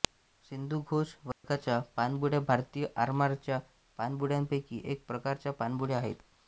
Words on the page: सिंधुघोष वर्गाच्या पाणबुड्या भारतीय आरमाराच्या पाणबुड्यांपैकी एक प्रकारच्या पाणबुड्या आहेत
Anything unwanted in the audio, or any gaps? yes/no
yes